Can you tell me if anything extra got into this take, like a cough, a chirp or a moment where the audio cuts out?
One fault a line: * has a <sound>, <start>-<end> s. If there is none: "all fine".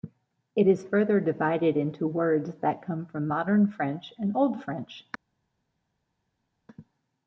all fine